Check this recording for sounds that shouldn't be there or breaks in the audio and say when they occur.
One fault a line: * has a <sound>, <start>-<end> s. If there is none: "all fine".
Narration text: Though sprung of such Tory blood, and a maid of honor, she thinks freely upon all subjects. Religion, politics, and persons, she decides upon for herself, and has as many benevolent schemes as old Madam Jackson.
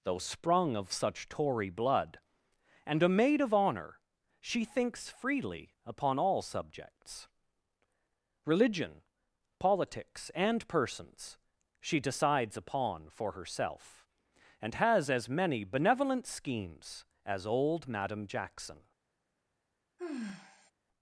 * has a sigh, 20.0-20.7 s